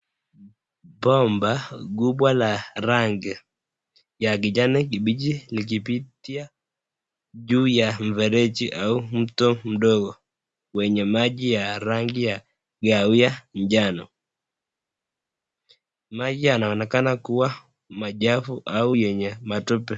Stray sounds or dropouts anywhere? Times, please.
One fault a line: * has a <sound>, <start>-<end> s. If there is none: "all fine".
all fine